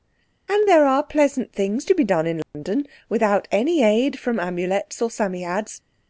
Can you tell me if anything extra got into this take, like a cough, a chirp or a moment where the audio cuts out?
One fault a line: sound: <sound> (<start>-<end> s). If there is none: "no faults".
sound: dropout (2.4-2.5 s)